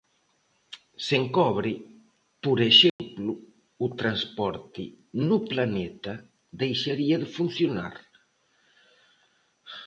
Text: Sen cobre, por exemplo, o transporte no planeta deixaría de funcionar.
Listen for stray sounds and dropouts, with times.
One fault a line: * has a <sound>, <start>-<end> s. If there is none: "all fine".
* has a dropout, 2.9-3.0 s